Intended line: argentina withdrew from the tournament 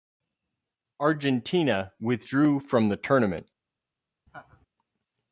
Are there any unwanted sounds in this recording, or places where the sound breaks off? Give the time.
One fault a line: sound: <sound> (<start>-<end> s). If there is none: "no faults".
sound: laugh (4.3-4.7 s)